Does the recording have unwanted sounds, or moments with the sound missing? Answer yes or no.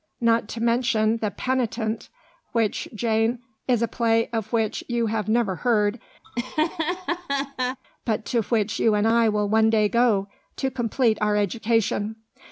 yes